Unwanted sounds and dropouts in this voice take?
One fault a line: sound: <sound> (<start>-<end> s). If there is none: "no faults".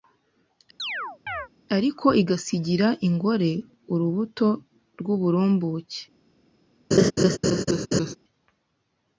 sound: chirp (0.8-1.5 s)
sound: laugh (6.9-8.2 s)